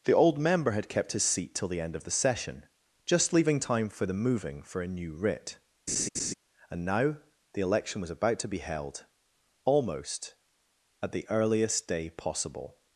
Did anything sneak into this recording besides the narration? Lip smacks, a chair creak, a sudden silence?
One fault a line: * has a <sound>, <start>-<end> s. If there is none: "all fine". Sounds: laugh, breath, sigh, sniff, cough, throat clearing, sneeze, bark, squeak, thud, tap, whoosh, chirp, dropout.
* has a laugh, 5.9-6.3 s